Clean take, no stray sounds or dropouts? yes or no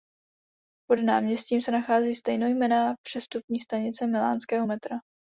yes